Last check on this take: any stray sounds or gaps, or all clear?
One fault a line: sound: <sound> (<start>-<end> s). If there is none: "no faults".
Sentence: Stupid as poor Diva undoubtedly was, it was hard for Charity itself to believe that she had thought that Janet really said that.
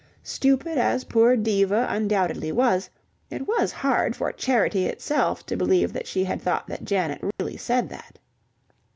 sound: dropout (7.3-7.4 s)